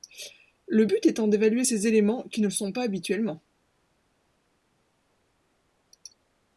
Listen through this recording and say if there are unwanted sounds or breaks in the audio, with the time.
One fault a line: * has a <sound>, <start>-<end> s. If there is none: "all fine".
all fine